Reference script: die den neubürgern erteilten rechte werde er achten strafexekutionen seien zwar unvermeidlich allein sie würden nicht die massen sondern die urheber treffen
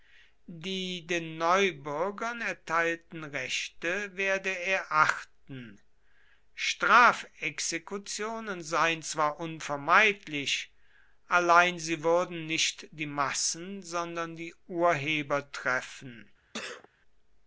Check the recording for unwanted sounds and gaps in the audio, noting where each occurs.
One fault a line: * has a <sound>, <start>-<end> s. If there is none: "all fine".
* has a sneeze, 16.5-16.9 s